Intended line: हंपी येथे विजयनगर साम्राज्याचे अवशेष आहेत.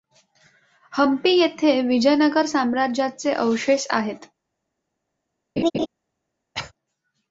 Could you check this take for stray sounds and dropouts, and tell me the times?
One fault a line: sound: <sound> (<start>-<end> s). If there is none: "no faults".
sound: laugh (5.6-5.9 s)
sound: cough (6.5-6.7 s)